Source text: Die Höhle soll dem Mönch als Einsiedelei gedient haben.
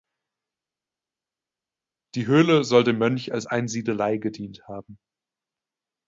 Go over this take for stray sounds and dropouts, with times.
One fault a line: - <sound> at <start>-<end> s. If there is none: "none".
none